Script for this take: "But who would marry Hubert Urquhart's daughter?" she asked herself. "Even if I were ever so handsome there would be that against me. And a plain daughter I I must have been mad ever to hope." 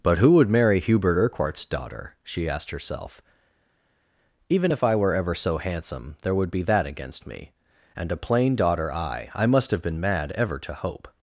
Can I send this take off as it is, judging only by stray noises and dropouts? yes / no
yes